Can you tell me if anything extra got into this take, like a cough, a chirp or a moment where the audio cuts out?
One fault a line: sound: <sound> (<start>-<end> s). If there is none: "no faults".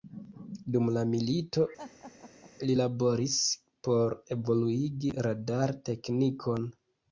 sound: laugh (1.8-2.5 s)